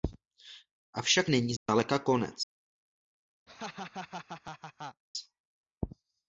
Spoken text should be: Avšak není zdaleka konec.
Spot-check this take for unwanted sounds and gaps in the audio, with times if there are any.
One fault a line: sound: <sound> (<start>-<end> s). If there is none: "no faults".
sound: dropout (1.6-1.7 s)
sound: laugh (3.5-5.0 s)